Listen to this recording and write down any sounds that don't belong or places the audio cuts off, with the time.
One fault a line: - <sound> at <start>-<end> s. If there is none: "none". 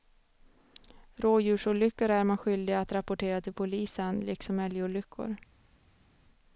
none